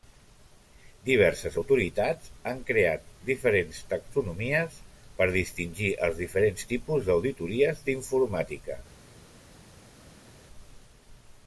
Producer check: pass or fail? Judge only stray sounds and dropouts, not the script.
pass